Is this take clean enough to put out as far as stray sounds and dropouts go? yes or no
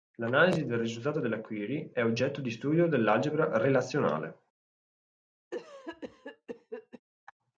no